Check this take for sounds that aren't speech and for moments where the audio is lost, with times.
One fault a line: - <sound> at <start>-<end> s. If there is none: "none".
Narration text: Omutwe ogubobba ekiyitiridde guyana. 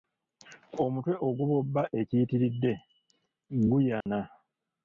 - dropout at 4.0-4.1 s